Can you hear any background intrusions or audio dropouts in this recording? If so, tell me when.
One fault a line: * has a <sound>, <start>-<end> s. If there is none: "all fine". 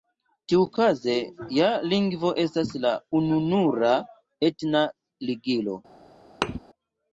* has a thud, 6.4-6.6 s